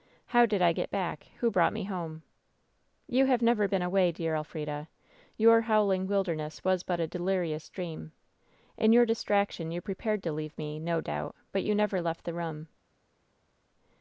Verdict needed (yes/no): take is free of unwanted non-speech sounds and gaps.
yes